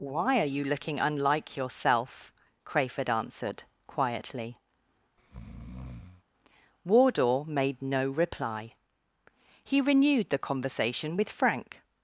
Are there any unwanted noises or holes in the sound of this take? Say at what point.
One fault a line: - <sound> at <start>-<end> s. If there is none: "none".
- breath at 5.2-6.2 s